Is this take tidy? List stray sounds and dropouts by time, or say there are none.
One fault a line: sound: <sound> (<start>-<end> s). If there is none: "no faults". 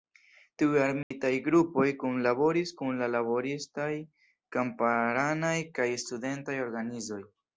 sound: dropout (1.0-1.1 s)